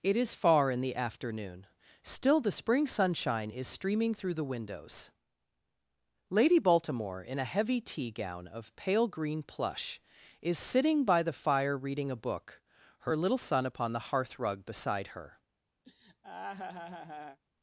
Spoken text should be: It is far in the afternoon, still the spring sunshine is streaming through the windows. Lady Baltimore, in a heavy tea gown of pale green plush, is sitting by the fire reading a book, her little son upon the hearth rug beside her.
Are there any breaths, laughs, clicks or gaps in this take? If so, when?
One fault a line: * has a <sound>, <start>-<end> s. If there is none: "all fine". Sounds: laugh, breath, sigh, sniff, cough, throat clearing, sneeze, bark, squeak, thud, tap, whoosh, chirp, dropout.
* has a laugh, 15.8-17.4 s